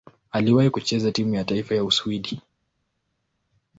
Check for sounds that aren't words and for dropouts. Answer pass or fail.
pass